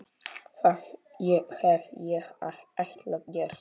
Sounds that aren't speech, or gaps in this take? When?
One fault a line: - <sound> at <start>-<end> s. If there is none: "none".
none